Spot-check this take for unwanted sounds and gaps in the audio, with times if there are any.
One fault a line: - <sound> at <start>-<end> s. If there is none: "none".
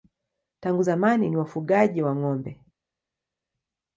none